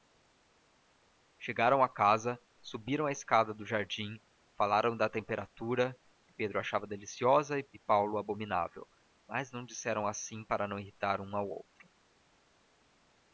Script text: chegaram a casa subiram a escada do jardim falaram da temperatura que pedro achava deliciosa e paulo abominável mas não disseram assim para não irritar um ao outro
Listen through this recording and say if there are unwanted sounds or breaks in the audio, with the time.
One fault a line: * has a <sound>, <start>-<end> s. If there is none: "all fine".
all fine